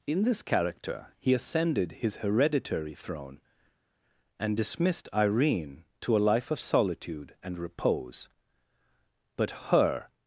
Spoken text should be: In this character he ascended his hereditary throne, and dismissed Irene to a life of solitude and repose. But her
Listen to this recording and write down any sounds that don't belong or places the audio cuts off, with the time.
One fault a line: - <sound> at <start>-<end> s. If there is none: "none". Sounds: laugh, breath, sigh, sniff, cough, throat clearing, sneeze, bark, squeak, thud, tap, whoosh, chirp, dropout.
none